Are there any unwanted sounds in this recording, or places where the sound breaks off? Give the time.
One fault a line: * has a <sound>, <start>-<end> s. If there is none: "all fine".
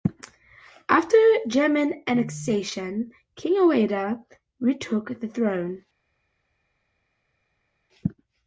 all fine